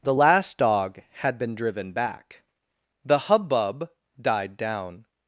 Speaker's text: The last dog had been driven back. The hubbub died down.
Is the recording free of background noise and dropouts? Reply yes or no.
yes